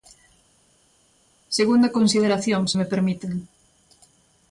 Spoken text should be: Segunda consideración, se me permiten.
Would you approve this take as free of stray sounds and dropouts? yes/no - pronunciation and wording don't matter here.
yes